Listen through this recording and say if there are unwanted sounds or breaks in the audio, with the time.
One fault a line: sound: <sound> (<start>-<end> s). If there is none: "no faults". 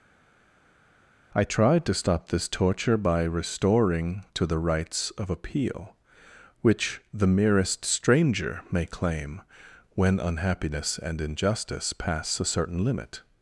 no faults